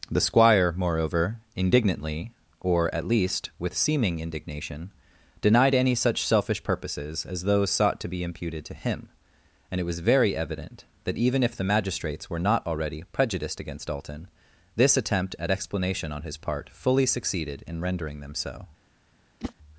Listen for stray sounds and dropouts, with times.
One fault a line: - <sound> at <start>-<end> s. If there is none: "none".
- whoosh at 19.4-19.5 s